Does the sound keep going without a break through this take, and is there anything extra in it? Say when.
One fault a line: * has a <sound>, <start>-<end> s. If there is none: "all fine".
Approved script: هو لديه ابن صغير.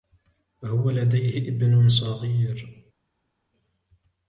all fine